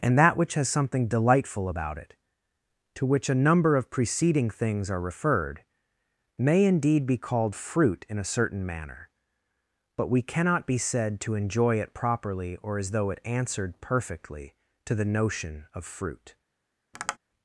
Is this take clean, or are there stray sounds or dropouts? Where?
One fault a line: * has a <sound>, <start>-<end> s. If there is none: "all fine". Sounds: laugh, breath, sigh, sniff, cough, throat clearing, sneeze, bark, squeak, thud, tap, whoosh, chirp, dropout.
* has a tap, 16.9-17.2 s